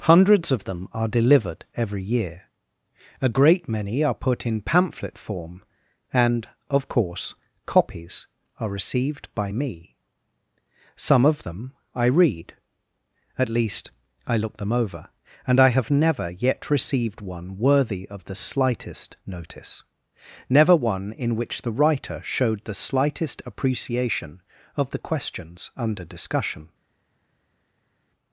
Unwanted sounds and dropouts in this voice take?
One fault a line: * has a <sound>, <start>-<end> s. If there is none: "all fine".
all fine